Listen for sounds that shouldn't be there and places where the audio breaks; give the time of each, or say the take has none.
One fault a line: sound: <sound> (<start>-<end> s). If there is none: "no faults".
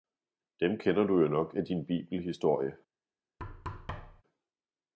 sound: thud (3.4-4.2 s)